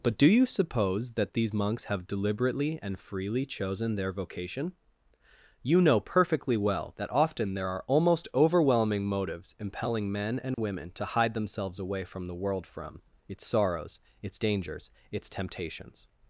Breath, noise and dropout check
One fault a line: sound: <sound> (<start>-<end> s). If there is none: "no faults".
sound: dropout (10.5-10.6 s)